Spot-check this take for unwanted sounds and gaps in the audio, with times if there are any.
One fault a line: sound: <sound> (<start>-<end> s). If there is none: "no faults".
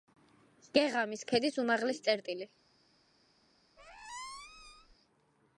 sound: squeak (3.8-4.9 s)